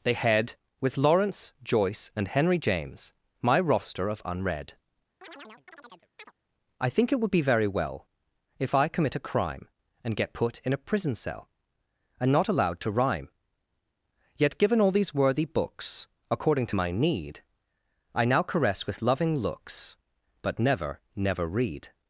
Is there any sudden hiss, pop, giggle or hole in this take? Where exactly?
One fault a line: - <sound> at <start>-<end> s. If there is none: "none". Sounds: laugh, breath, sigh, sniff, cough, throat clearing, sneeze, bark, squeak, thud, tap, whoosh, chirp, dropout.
- chirp at 5.2-6.3 s